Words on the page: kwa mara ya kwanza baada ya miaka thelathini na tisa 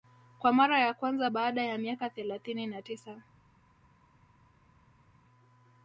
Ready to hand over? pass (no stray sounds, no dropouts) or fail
pass